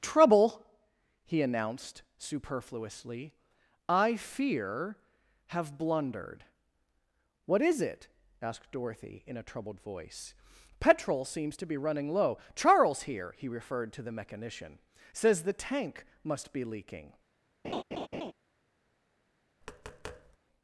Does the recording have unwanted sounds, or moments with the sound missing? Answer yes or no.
yes